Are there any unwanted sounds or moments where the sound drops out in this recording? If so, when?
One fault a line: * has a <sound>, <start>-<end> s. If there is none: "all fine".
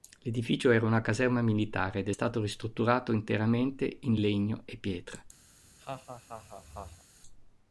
* has a laugh, 5.5-7.0 s